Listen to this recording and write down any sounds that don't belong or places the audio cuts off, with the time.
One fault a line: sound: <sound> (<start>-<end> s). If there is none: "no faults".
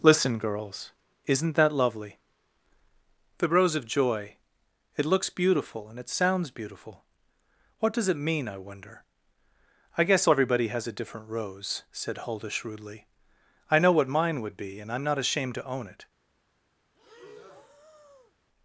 sound: breath (16.9-18.3 s)